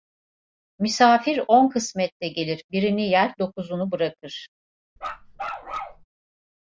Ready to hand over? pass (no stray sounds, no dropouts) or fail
fail